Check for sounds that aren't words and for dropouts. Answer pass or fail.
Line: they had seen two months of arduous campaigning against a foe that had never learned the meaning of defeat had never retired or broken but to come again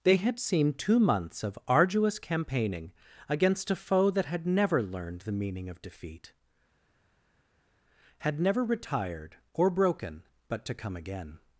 pass